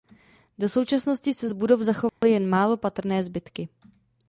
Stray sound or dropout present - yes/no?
yes